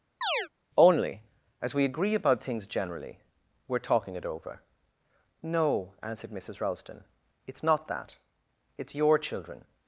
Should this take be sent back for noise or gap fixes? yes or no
yes